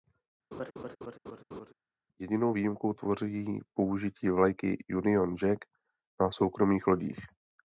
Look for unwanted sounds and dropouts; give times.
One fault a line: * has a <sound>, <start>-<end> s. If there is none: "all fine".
* has a laugh, 0.5-1.7 s